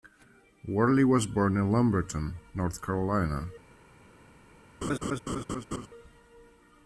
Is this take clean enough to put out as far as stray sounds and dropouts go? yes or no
no